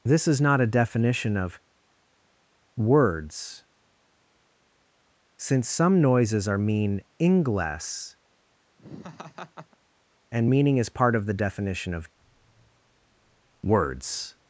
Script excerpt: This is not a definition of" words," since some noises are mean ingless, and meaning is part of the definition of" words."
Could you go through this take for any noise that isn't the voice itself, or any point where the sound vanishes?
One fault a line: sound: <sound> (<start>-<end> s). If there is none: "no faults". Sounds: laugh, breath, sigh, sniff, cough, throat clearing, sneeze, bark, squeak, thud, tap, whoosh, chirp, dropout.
sound: laugh (8.8-9.8 s)